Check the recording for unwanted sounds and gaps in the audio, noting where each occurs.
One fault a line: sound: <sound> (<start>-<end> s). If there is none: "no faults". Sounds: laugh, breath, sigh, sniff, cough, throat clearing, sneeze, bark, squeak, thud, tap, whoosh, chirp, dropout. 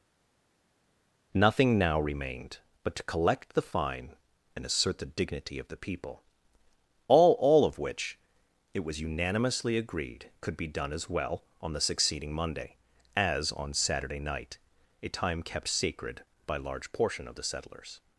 no faults